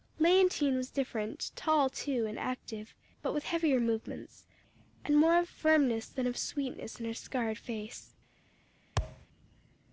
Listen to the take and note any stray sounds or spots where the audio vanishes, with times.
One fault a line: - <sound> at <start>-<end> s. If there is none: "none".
- thud at 9.0-9.3 s